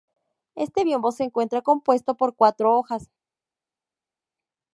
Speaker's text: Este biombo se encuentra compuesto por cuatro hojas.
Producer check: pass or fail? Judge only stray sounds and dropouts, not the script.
pass